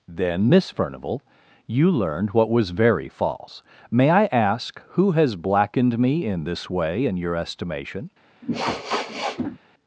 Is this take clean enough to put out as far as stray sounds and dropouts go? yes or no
no